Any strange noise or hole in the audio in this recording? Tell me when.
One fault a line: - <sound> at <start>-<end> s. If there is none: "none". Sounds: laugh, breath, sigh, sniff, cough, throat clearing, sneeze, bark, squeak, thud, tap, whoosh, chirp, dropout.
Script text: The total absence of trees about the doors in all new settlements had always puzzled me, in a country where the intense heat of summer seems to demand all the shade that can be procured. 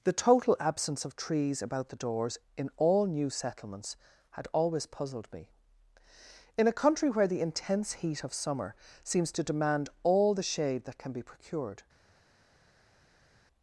none